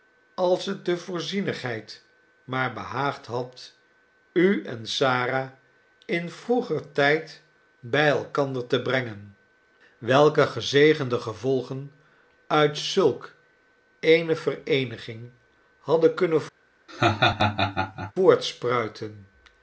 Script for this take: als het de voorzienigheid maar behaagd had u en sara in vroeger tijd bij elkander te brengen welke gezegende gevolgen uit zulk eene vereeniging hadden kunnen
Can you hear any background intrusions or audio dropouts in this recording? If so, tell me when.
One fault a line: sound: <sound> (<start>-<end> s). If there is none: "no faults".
sound: laugh (16.9-18.1 s)